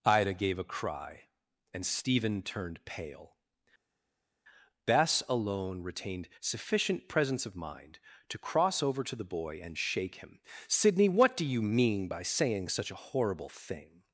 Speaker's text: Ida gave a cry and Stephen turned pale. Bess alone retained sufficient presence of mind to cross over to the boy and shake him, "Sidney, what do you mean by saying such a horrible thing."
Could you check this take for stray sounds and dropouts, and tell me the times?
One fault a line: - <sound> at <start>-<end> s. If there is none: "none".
none